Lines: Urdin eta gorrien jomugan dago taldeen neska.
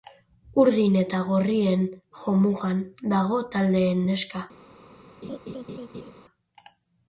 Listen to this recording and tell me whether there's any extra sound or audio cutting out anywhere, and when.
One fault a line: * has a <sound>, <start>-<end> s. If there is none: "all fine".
* has a laugh, 5.2-6.1 s